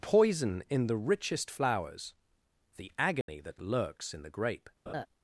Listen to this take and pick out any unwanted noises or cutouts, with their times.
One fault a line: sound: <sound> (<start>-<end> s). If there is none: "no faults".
sound: dropout (3.2-3.3 s)
sound: laugh (4.9-5.1 s)